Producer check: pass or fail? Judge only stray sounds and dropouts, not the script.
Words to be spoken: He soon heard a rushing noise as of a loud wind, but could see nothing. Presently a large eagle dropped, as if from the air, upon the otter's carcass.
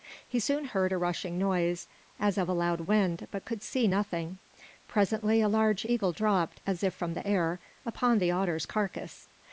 pass